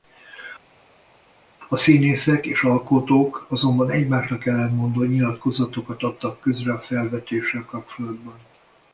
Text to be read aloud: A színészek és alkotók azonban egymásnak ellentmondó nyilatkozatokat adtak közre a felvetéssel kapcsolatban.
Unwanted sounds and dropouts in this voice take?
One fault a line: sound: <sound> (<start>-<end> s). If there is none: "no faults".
no faults